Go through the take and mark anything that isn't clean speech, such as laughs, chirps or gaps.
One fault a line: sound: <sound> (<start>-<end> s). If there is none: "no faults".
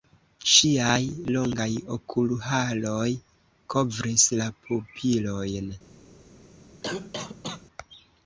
sound: cough (6.8-7.7 s)